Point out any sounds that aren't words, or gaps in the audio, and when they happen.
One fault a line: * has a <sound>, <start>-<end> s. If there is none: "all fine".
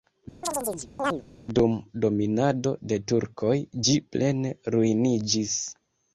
* has a chirp, 0.4-1.2 s